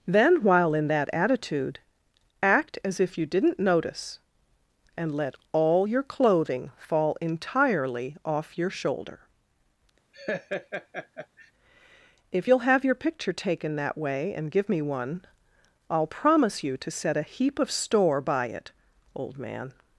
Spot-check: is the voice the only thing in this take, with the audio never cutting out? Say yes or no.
no